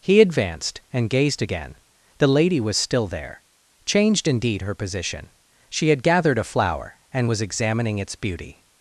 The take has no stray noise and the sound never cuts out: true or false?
true